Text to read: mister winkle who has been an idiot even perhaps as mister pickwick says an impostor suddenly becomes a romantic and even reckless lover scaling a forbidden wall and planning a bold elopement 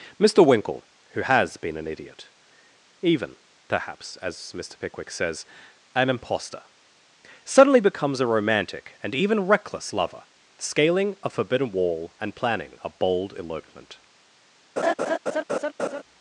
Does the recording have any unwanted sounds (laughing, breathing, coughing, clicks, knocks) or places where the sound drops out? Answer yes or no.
yes